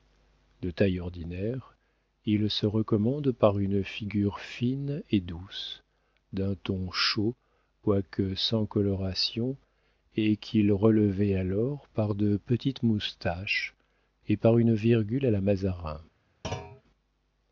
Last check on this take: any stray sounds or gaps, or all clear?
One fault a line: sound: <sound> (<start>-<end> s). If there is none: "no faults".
sound: thud (16.4-16.8 s)